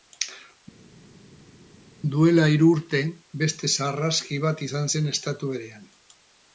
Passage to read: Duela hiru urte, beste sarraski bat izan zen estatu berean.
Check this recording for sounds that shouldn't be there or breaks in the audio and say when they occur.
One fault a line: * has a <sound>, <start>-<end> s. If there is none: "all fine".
all fine